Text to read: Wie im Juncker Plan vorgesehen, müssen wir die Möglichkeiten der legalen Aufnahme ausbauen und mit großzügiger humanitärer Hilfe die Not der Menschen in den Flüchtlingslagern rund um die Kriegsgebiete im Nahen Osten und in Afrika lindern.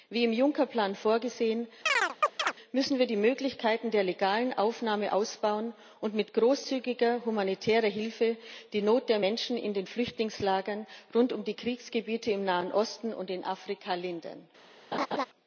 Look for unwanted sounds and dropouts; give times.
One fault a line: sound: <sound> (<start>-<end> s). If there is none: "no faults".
sound: chirp (1.9-2.5 s)
sound: laugh (14.9-15.3 s)